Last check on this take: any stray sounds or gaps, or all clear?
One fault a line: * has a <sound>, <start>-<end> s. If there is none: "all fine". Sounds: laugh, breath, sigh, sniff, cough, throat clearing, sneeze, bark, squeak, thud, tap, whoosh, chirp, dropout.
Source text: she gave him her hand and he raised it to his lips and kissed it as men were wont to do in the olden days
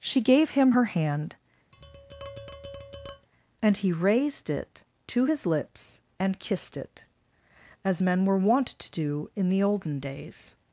* has a tap, 1.7-3.3 s